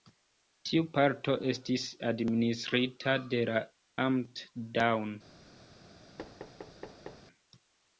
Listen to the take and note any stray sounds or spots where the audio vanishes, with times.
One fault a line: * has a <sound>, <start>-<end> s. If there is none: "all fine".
* has a thud, 6.2-7.3 s